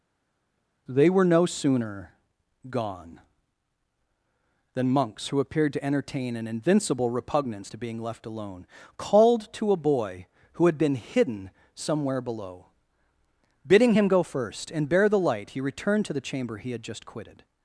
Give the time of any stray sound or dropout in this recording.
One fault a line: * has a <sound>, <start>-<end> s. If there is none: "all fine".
all fine